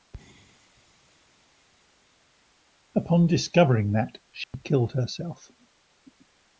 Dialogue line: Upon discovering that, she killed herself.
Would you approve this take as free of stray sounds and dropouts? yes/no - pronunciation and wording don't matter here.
no